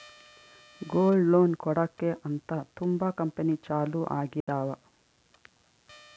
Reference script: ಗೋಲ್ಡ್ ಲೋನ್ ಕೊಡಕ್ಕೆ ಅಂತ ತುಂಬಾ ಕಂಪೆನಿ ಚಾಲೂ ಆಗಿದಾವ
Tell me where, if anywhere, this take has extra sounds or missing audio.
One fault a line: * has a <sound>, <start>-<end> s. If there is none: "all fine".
* has a dropout, 4.4-4.5 s